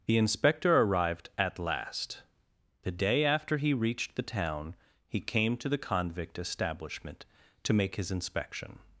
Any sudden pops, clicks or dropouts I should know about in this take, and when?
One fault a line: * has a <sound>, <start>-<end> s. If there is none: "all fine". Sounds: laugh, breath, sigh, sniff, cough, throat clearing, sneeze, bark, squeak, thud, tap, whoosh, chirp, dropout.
all fine